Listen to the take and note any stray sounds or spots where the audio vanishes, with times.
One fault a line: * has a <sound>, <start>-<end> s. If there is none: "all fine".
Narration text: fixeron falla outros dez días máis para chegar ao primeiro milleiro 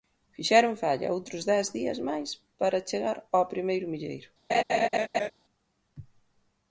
* has a laugh, 4.5-5.3 s